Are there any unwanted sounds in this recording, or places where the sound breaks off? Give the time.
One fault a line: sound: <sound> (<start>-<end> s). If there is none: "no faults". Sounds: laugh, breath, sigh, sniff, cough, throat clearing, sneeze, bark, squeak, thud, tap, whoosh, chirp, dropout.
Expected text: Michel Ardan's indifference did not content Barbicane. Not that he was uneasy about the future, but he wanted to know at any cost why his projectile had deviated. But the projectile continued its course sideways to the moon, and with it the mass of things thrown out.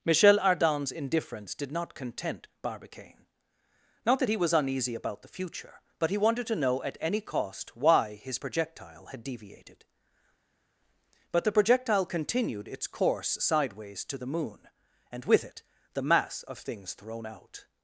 no faults